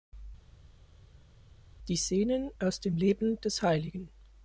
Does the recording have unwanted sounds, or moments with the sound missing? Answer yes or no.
no